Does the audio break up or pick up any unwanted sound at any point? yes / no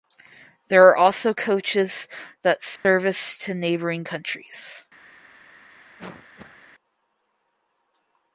yes